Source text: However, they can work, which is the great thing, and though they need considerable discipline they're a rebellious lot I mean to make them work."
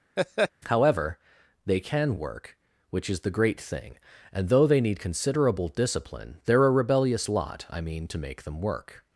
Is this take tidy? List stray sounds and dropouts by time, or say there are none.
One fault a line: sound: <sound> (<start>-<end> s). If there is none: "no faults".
sound: laugh (0.2-0.5 s)